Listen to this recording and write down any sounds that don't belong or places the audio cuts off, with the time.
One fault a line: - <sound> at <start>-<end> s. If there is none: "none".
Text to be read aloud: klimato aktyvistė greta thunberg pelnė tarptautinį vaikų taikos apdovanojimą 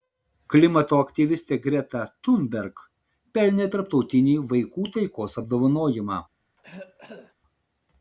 - cough at 6.6-7.3 s